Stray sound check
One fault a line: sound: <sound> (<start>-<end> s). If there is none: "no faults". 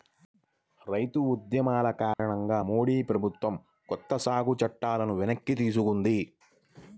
sound: dropout (2.1-2.2 s)